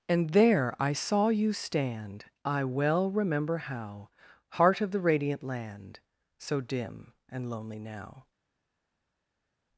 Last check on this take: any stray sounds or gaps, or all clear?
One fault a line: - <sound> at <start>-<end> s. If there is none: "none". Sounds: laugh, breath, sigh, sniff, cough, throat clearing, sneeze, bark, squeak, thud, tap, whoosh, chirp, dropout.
none